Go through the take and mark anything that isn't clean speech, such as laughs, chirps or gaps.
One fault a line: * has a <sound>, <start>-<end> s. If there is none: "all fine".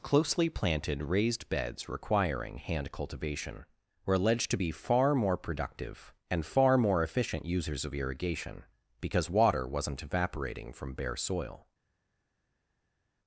all fine